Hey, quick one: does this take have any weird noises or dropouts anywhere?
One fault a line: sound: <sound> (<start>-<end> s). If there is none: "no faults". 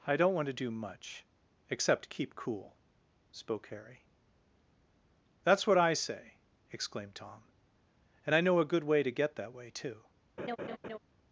sound: laugh (10.4-11.0 s)